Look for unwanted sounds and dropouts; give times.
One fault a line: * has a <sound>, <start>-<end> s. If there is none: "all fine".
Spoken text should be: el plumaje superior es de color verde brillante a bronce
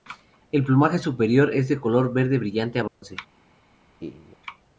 * has a dropout, 2.9-3.0 s
* has a laugh, 4.0-4.4 s